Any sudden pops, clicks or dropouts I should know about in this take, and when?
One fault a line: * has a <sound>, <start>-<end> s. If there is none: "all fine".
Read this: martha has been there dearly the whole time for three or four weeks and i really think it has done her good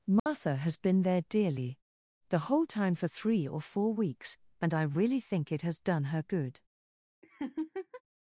* has a dropout, 0.2-0.3 s
* has a laugh, 7.2-8.0 s